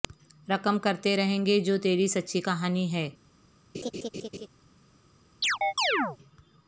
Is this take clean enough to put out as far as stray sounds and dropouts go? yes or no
no